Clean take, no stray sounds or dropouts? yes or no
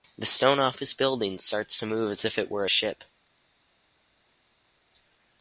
yes